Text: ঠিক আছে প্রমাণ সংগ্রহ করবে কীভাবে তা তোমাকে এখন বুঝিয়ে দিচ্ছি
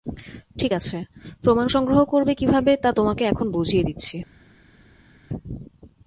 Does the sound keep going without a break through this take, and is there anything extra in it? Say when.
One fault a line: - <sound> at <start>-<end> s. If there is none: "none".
none